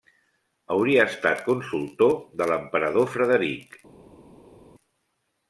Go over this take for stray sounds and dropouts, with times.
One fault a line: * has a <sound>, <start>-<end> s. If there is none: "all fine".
all fine